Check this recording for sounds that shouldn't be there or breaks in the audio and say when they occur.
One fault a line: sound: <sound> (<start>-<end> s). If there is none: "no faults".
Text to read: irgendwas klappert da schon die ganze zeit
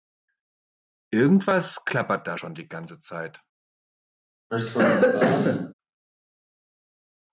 sound: cough (4.5-5.7 s)